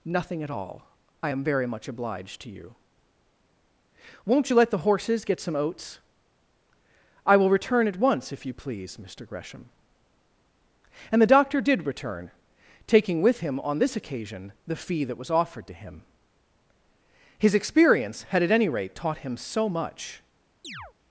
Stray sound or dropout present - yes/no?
yes